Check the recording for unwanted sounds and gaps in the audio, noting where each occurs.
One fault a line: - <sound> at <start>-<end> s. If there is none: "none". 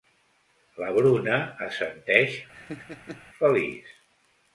- laugh at 2.5-3.3 s